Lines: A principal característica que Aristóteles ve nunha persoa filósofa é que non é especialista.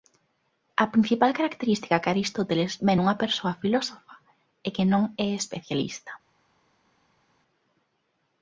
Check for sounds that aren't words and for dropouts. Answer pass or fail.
pass